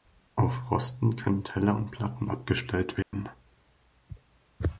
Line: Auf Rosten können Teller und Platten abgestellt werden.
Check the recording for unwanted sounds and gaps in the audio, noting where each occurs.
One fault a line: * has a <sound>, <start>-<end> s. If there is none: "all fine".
* has a dropout, 3.0-3.1 s